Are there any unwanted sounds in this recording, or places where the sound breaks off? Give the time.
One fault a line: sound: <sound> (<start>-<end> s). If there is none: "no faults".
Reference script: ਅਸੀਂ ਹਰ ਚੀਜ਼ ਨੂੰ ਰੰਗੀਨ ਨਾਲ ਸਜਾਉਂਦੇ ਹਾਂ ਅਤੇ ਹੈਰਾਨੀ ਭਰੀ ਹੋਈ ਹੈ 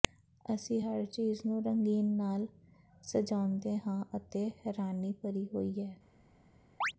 sound: chirp (6.8-6.9 s)